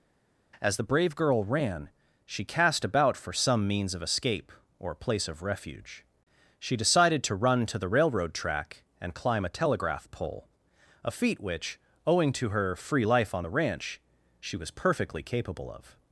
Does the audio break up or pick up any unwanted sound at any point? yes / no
no